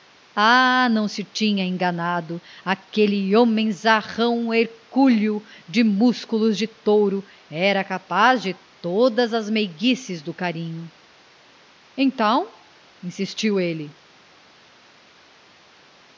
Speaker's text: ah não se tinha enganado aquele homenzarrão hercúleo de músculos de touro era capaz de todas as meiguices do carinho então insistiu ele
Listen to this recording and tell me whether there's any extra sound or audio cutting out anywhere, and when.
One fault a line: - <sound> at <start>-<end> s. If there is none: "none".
none